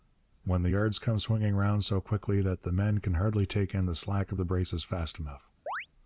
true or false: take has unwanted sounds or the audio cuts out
true